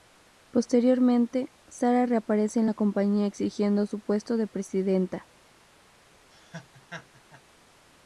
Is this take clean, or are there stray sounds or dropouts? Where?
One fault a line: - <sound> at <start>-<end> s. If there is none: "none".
- laugh at 6.3-7.4 s